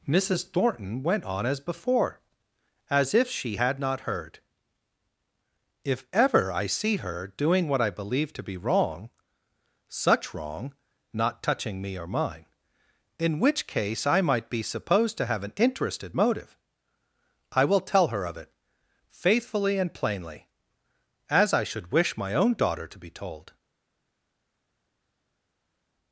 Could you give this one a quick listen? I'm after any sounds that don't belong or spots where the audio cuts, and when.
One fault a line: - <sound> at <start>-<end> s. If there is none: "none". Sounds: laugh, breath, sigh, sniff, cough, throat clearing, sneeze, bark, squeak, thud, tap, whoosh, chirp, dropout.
none